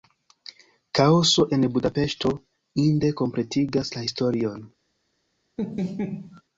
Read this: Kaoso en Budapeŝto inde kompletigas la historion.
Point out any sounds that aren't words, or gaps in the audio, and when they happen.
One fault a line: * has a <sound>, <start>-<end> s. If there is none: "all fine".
* has a laugh, 5.6-6.4 s